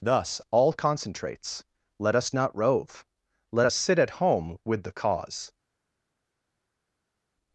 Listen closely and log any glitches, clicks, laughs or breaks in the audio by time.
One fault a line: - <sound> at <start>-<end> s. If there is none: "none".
none